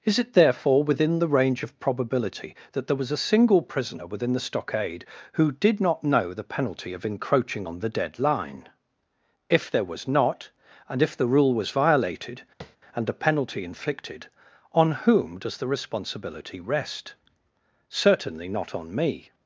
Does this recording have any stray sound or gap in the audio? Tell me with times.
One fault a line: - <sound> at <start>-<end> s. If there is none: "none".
- tap at 12.6-12.8 s